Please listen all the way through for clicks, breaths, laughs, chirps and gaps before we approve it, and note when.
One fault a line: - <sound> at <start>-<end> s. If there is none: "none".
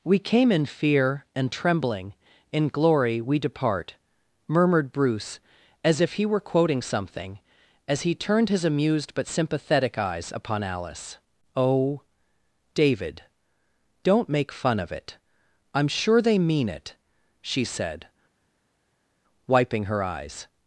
none